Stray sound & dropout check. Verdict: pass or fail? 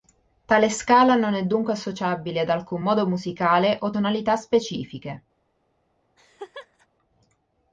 fail